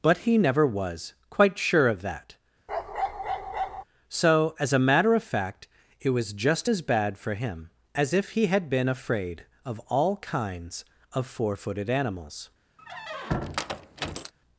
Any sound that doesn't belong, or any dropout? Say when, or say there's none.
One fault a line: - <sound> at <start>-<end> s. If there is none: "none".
- bark at 2.7-3.8 s
- squeak at 12.8-14.3 s